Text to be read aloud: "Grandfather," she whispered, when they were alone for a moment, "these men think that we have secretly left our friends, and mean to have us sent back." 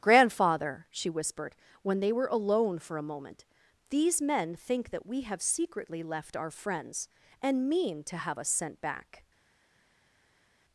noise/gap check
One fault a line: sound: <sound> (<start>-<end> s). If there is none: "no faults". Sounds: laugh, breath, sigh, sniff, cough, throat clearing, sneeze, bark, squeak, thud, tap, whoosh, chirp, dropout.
no faults